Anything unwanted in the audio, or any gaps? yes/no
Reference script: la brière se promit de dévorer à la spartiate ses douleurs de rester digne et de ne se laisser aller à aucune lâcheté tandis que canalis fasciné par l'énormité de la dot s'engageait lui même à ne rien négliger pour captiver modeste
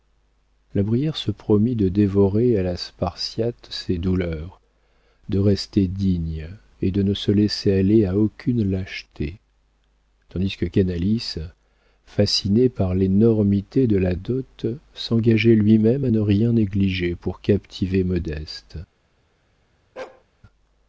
yes